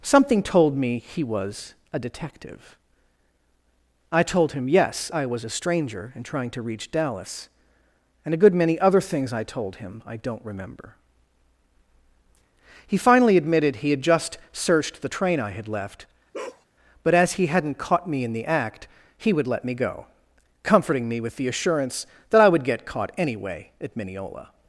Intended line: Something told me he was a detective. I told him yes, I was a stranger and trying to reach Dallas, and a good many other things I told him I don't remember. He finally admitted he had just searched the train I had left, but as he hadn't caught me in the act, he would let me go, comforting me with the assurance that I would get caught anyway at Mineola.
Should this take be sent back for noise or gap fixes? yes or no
yes